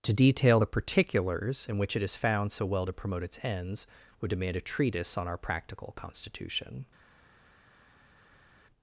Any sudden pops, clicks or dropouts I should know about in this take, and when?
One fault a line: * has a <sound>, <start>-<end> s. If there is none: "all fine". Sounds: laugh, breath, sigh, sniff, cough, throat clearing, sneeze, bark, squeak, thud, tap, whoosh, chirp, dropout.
all fine